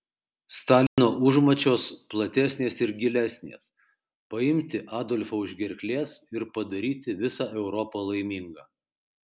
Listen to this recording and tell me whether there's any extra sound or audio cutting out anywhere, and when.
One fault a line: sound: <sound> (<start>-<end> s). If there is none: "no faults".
sound: dropout (0.9-1.0 s)